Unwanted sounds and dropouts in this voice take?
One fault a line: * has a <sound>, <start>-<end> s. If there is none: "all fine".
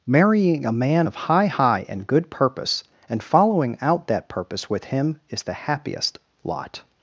all fine